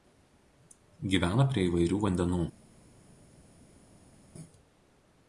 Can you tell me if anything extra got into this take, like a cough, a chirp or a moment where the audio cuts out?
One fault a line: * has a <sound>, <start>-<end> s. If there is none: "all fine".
all fine